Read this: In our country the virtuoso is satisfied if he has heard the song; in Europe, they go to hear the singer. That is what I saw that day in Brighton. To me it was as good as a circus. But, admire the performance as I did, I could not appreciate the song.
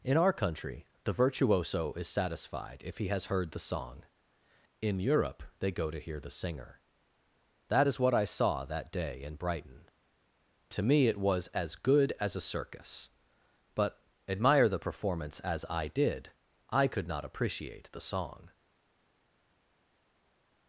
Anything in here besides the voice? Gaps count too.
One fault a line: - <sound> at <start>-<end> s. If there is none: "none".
none